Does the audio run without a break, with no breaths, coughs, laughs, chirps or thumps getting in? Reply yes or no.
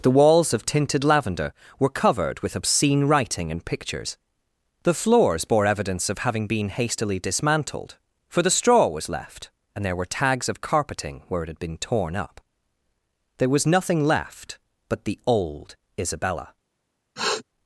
no